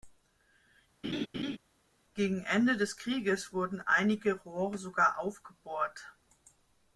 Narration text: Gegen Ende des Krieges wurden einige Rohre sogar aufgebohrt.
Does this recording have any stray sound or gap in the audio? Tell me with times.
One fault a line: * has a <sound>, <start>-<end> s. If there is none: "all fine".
* has a laugh, 1.0-1.6 s